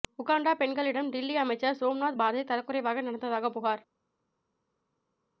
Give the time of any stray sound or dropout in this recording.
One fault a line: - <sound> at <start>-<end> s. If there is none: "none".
none